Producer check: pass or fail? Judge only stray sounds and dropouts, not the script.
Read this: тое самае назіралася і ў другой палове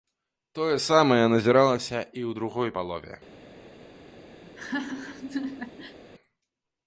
fail